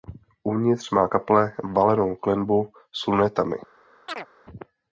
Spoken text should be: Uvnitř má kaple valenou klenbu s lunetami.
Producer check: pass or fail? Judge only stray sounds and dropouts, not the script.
fail